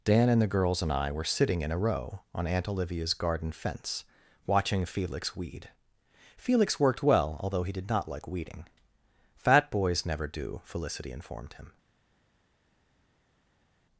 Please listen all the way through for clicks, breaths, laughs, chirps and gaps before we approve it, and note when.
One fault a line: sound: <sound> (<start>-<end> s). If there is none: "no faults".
no faults